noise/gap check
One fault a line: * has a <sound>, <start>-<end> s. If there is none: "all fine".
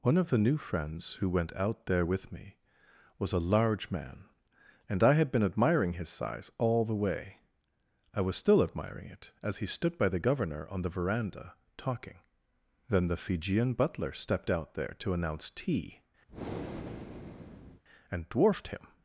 * has a breath, 16.3-17.8 s